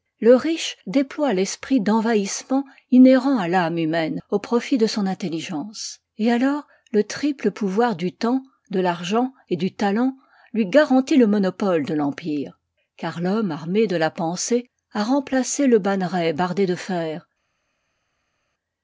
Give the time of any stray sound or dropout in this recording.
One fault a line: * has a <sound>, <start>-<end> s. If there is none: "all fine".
all fine